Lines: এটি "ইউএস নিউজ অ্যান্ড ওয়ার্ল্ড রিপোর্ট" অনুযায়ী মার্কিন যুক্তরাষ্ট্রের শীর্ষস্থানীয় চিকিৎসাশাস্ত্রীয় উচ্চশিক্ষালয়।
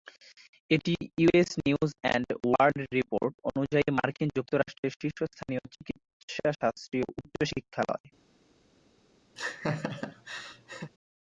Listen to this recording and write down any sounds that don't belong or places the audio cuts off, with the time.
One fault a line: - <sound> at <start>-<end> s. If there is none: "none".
- laugh at 9.4-10.9 s